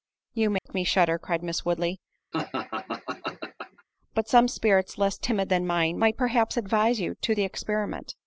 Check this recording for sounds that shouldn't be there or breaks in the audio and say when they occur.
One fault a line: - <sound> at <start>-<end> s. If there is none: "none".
- dropout at 0.6-0.7 s
- laugh at 2.3-3.8 s